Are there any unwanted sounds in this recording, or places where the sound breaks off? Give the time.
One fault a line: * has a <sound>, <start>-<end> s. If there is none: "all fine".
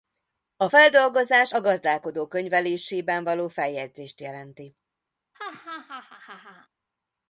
* has a laugh, 5.3-6.7 s